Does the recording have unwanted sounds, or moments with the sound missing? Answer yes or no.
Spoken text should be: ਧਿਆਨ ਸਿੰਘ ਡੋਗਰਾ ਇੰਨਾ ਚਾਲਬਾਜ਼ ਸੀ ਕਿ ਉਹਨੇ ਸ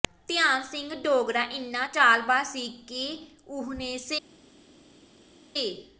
no